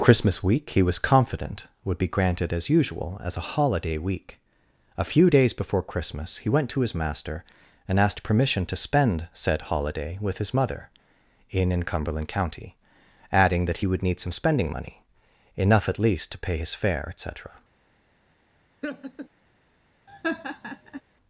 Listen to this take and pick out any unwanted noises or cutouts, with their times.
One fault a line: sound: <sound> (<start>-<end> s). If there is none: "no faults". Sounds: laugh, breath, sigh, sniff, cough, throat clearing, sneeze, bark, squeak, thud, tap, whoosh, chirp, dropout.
sound: laugh (18.8-19.3 s)
sound: laugh (20.1-21.0 s)